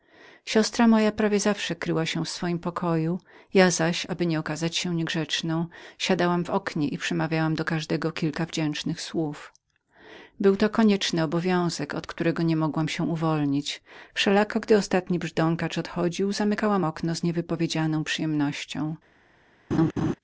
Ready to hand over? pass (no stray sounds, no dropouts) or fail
fail